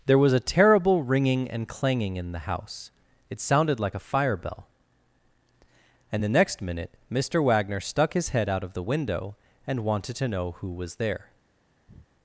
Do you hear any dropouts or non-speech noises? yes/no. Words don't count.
yes